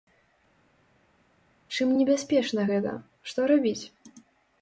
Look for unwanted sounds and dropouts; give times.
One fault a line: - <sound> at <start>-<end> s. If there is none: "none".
none